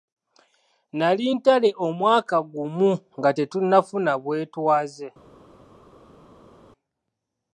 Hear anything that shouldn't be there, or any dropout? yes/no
no